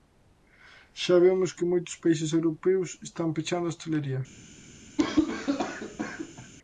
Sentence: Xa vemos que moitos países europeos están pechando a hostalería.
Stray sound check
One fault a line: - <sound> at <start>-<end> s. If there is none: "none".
- cough at 5.0-6.5 s